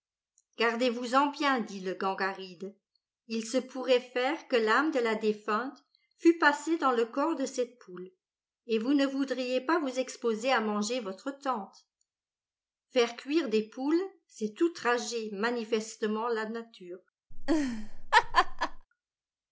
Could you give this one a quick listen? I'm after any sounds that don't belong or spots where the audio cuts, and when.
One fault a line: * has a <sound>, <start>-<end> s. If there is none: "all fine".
* has a laugh, 17.3-18.9 s